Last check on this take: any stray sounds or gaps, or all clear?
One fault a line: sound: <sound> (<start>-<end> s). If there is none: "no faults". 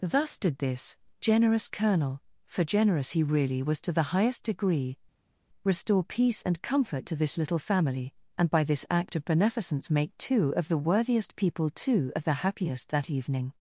no faults